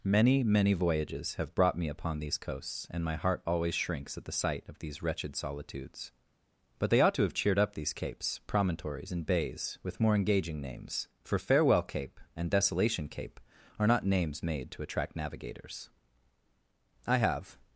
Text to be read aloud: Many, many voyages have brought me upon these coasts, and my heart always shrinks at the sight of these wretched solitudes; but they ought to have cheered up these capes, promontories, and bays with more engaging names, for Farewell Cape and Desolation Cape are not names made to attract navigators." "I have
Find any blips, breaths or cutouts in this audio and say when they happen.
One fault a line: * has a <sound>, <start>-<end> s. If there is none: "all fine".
all fine